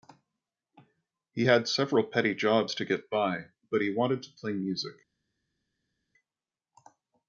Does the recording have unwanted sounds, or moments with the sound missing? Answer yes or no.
no